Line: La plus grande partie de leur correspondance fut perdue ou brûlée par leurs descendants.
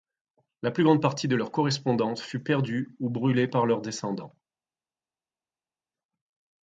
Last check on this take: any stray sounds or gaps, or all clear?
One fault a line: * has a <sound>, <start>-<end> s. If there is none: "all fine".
all fine